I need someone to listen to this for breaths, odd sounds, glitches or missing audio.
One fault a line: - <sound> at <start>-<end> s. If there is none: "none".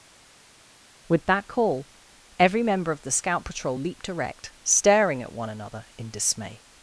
none